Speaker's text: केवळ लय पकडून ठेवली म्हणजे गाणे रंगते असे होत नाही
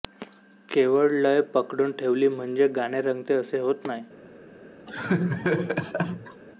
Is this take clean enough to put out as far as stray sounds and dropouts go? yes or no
no